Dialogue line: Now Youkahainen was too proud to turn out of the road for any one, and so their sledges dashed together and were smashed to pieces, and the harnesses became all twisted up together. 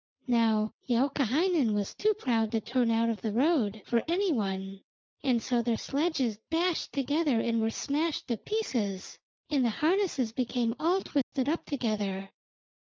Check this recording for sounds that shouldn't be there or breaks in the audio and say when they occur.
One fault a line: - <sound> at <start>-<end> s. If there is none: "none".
- dropout at 11.2-11.3 s